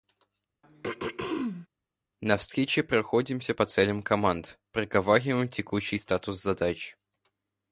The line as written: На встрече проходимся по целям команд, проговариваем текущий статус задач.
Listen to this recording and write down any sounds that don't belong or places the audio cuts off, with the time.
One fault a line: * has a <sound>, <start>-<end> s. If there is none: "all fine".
* has a throat clearing, 0.6-1.7 s